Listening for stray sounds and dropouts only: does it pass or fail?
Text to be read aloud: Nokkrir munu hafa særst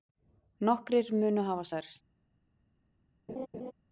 fail